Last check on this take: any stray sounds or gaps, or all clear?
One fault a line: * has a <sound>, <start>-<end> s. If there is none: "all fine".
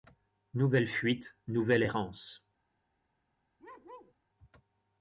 * has a bark, 3.6-4.1 s